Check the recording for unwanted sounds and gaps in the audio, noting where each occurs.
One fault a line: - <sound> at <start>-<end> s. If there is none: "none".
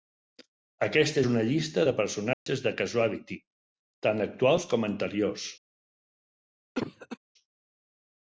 - dropout at 2.3-2.5 s
- cough at 6.7-7.2 s